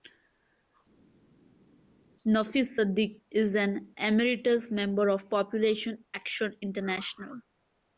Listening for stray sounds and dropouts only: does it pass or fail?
pass